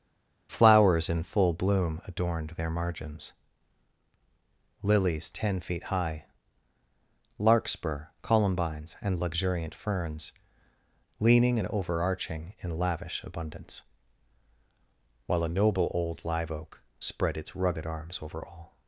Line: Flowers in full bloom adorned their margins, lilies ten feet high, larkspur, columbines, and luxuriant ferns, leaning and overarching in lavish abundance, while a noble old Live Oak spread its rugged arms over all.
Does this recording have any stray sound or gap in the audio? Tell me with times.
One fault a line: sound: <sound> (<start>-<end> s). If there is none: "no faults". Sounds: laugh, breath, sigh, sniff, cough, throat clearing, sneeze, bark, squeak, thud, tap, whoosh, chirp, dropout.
no faults